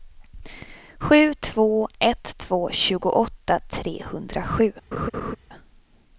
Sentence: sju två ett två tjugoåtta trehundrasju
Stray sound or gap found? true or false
true